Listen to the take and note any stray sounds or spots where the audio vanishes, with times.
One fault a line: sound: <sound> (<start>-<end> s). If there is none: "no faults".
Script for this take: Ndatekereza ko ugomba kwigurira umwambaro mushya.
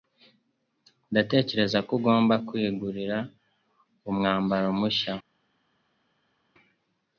no faults